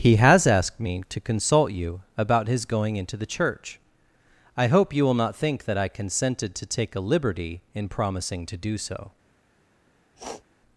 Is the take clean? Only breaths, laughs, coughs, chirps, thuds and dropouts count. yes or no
no